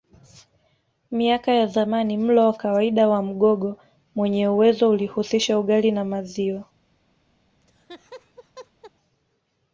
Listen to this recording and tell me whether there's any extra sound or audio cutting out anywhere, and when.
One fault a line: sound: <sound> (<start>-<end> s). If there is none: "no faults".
sound: laugh (7.6-8.9 s)